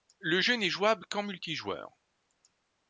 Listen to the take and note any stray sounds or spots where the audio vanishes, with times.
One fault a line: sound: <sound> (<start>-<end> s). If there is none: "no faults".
no faults